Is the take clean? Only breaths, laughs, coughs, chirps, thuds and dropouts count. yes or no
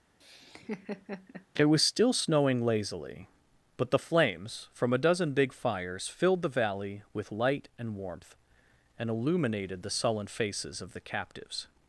no